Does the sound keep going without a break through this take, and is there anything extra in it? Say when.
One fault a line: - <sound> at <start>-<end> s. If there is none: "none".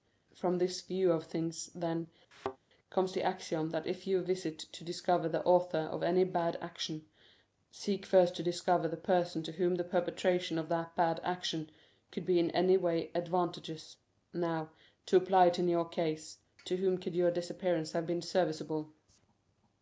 - thud at 2.3-2.6 s